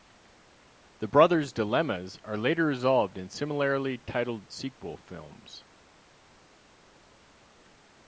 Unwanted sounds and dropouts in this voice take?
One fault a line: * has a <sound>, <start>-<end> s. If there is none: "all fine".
all fine